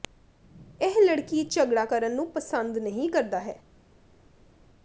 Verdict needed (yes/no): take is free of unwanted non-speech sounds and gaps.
yes